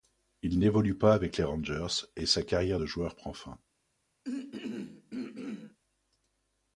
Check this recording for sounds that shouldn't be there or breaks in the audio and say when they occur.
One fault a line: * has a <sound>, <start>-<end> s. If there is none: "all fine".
* has a throat clearing, 4.2-5.8 s